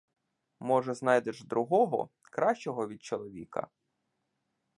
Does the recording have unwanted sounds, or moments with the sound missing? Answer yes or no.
no